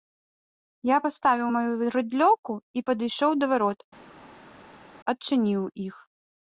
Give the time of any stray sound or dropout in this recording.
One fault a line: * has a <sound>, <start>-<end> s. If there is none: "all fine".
all fine